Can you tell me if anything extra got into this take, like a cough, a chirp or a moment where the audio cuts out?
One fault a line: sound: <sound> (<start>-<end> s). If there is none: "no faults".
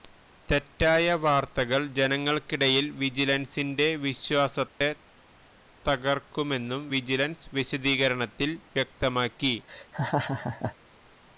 sound: dropout (4.7-4.8 s)
sound: laugh (9.7-10.7 s)